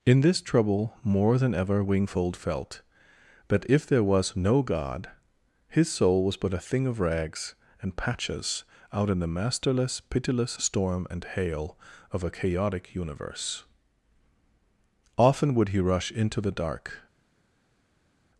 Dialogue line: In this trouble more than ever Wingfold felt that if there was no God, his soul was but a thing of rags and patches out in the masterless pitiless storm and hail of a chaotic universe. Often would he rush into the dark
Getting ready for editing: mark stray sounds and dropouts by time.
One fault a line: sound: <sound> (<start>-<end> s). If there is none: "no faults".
no faults